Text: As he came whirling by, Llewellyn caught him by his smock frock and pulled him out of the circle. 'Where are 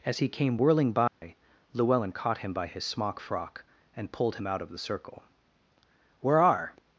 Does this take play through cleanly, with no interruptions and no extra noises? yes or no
no